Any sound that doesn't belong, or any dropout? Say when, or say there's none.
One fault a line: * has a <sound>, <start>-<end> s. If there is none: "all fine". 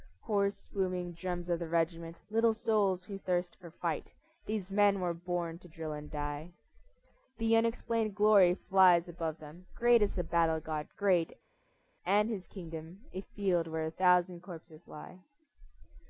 all fine